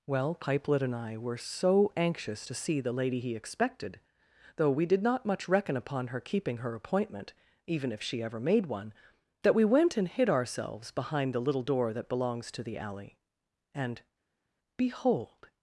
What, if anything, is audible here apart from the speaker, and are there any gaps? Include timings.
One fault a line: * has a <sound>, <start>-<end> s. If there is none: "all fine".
all fine